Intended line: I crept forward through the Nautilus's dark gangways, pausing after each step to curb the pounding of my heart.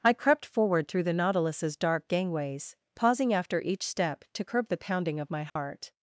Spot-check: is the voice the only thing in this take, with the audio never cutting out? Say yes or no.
no